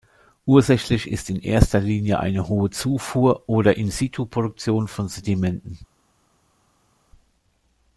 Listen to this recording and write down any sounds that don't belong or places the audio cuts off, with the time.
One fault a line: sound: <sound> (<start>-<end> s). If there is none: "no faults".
no faults